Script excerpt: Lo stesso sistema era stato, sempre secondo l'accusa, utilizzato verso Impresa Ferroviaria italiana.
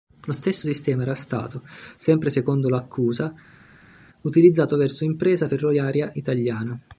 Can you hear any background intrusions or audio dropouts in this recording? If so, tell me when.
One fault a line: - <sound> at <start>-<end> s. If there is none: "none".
none